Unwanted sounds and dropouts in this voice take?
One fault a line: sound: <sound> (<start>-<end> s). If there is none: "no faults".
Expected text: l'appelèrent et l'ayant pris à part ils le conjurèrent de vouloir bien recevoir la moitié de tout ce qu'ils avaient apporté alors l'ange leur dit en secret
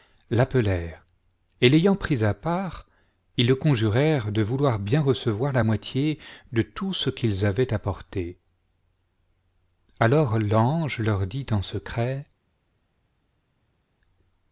no faults